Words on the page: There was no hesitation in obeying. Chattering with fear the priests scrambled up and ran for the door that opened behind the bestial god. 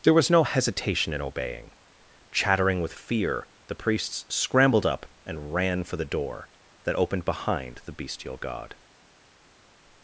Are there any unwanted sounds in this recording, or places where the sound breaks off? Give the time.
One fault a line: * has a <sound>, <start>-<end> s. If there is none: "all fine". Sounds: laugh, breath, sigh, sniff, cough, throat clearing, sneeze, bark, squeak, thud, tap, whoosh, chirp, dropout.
all fine